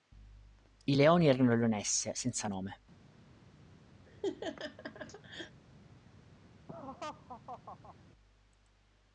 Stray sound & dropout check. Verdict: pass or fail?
fail